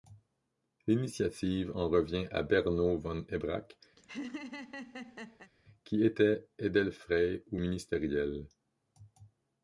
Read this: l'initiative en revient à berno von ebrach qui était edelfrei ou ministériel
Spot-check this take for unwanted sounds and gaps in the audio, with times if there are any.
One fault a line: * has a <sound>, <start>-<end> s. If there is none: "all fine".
* has a laugh, 4.0-5.5 s